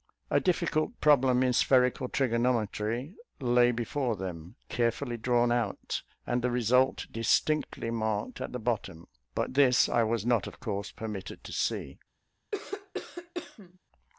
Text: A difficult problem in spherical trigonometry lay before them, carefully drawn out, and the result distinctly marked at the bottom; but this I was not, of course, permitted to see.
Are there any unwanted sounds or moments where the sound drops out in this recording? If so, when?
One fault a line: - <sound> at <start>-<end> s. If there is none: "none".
- cough at 12.5-13.8 s